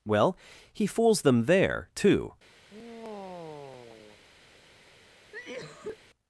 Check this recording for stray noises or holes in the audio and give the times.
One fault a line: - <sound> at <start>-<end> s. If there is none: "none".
- sigh at 2.7-4.2 s
- cough at 5.3-6.0 s